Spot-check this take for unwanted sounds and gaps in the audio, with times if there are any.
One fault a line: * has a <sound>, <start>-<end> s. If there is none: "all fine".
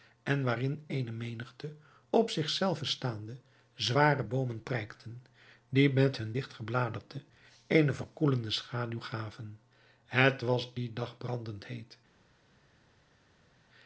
all fine